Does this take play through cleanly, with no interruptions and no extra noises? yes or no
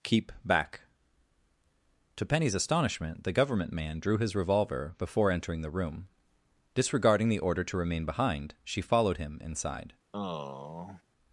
no